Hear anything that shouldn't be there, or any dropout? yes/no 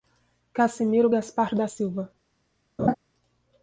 yes